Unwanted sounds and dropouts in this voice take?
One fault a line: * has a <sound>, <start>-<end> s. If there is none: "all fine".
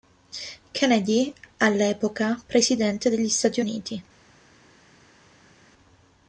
all fine